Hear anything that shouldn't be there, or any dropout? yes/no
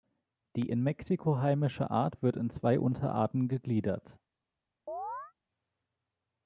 yes